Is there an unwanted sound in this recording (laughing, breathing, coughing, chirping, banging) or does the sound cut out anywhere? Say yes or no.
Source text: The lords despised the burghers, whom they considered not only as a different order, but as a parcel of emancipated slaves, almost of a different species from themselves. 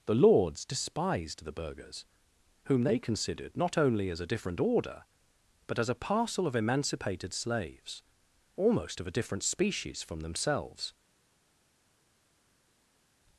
no